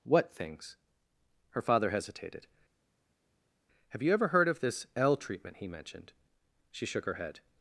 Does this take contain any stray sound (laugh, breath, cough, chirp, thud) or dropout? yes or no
no